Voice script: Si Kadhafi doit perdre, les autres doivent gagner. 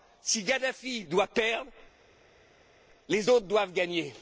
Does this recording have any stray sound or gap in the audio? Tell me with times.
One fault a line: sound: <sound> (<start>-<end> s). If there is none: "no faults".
no faults